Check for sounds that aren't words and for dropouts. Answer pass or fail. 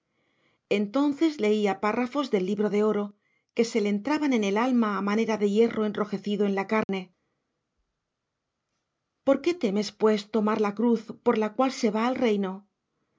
fail